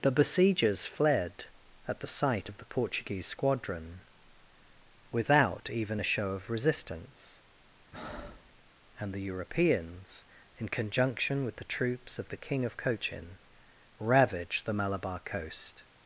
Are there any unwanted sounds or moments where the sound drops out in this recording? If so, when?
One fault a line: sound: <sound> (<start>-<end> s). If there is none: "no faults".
sound: breath (7.9-8.5 s)